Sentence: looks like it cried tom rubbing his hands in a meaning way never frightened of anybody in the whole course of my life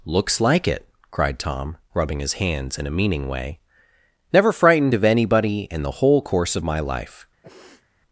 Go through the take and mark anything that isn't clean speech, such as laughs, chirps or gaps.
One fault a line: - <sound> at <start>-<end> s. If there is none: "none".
- sniff at 7.4-7.9 s